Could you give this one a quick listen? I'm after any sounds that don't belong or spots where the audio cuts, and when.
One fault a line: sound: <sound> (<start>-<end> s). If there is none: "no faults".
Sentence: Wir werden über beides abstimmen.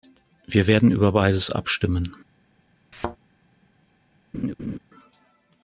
sound: thud (2.9-3.2 s)
sound: laugh (4.3-4.8 s)